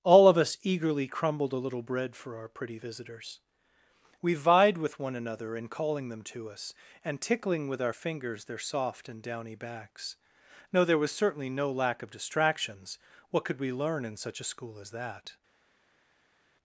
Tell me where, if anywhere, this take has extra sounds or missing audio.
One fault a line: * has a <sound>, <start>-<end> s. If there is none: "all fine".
all fine